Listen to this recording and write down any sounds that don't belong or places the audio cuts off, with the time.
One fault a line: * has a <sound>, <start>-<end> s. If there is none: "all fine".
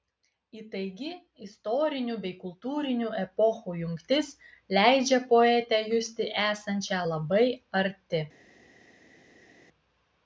all fine